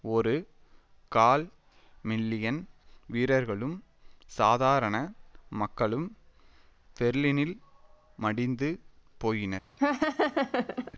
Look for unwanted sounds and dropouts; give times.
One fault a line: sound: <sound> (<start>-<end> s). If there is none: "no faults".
sound: laugh (9.8-10.9 s)